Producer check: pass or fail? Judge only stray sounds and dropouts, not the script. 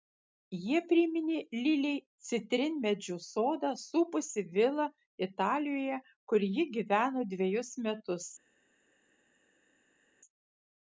pass